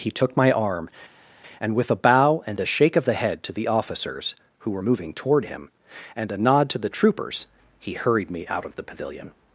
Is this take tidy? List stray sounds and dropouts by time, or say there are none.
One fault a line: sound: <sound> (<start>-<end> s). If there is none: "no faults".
no faults